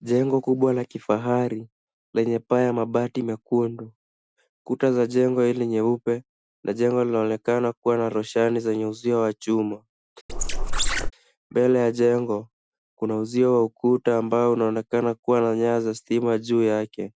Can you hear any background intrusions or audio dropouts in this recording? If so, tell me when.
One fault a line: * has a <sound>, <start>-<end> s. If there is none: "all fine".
* has a squeak, 10.3-11.1 s